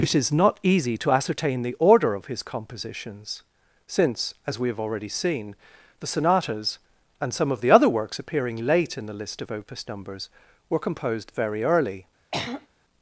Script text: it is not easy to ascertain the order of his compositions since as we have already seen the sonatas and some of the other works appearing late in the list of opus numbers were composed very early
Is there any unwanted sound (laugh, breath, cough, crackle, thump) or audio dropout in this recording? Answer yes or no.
yes